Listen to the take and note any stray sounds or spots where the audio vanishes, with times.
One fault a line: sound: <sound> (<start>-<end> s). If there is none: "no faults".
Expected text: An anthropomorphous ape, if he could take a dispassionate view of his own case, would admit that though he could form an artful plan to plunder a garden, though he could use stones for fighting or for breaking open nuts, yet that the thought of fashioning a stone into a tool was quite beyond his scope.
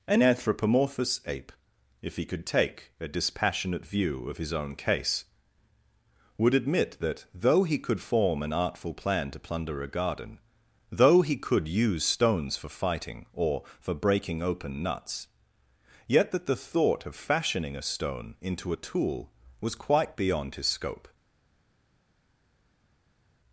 no faults